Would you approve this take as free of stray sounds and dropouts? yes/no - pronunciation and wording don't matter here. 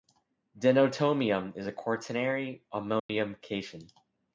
no